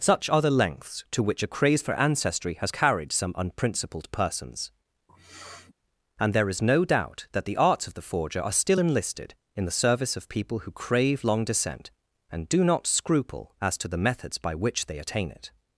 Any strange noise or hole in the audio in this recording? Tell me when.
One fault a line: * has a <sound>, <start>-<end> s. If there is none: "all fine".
* has a sniff, 5.1-5.7 s